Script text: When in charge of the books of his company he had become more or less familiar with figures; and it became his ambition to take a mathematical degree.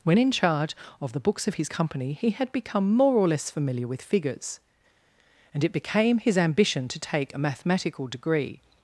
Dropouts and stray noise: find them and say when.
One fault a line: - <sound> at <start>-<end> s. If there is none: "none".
none